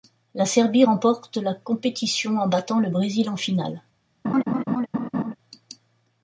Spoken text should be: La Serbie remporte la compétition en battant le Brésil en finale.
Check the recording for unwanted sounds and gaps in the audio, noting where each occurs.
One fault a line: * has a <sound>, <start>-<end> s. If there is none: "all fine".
* has a laugh, 4.2-5.3 s